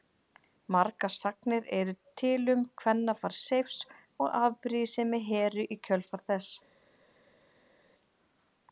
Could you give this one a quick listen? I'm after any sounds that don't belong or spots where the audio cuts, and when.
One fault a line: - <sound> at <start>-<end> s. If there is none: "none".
none